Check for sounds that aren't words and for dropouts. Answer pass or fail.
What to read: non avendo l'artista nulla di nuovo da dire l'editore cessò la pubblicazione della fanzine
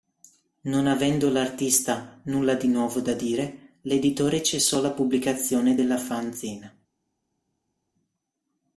pass